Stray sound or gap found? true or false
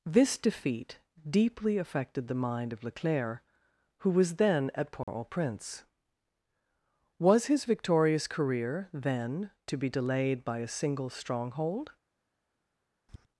true